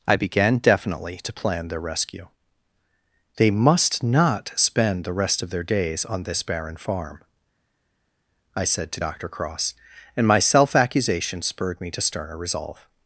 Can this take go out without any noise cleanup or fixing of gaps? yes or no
yes